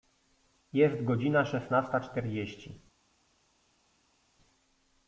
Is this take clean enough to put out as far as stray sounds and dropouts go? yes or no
yes